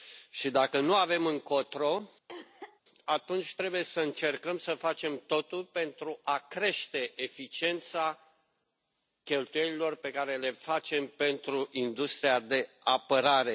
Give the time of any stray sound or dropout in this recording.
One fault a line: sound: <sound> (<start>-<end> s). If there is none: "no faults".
sound: cough (2.3-2.8 s)